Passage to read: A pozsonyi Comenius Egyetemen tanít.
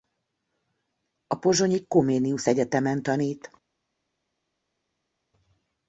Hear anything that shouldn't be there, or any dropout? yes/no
no